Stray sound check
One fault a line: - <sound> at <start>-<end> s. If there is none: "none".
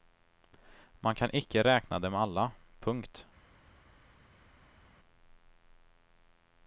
none